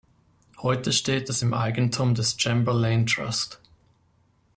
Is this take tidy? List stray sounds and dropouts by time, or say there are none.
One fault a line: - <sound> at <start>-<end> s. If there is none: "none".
none